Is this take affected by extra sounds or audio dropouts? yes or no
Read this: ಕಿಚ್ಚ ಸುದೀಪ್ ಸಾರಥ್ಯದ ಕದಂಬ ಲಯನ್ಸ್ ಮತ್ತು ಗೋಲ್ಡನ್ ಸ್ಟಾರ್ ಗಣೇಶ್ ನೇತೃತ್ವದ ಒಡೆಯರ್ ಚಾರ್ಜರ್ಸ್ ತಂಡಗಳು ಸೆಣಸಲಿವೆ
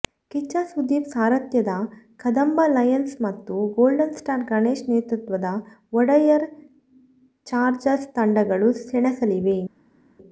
no